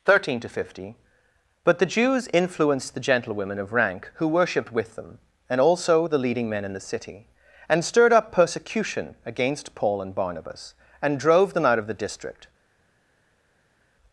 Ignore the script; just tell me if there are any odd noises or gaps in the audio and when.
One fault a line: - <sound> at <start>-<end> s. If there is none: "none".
none